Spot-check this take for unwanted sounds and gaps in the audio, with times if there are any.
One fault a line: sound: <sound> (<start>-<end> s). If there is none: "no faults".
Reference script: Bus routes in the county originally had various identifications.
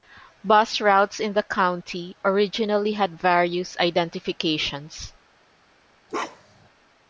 sound: bark (6.1-6.7 s)